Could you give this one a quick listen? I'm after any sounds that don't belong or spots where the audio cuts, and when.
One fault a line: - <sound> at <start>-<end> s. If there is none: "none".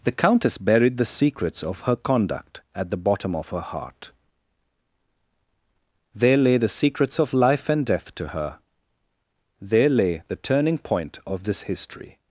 none